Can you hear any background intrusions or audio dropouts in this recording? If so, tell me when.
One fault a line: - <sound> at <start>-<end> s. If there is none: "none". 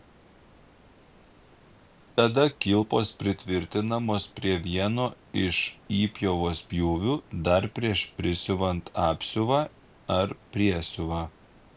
none